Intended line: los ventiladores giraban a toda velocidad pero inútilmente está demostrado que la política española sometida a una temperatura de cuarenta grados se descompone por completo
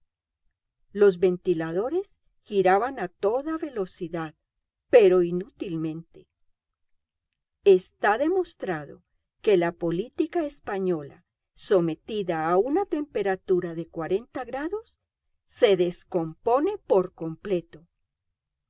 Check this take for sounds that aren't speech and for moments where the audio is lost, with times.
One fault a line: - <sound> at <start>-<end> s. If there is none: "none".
none